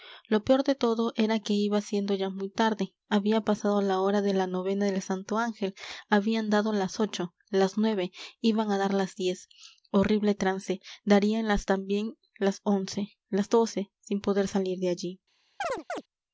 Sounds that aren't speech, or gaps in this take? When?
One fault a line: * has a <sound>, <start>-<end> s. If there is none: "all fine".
* has a chirp, 15.6-16.0 s